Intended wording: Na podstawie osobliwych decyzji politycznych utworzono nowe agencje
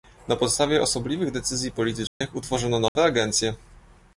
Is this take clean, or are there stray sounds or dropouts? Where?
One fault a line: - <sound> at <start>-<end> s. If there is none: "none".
- dropout at 2.1-2.2 s
- dropout at 2.9-3.0 s